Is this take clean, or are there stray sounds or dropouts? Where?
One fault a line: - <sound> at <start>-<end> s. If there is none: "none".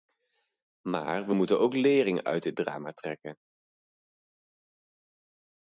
none